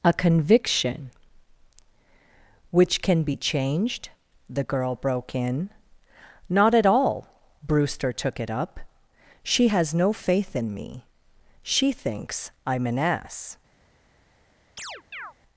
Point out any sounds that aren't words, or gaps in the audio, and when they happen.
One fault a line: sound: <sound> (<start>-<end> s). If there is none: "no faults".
sound: chirp (14.8-15.3 s)